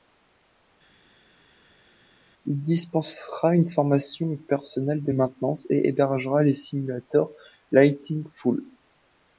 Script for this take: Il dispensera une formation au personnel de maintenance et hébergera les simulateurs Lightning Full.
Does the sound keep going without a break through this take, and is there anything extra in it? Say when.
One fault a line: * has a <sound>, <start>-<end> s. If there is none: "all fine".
all fine